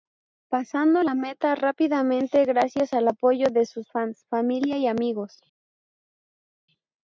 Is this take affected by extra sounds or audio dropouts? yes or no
no